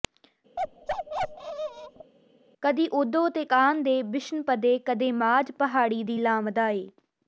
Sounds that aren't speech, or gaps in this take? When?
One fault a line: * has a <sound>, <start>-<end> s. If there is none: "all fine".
* has a bark, 0.6-2.1 s